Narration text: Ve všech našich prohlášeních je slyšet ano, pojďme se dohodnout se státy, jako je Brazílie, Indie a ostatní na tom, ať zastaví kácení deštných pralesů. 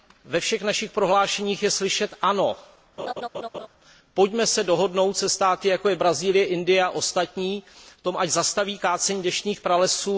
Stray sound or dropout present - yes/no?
yes